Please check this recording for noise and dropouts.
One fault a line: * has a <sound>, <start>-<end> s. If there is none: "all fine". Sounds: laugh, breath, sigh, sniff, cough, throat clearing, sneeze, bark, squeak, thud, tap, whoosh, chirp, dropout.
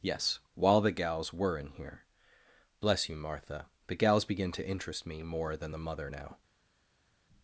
all fine